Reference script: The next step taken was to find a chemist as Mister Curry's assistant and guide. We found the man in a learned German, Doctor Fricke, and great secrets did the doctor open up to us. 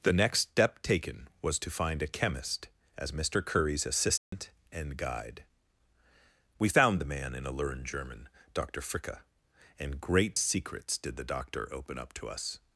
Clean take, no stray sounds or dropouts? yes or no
no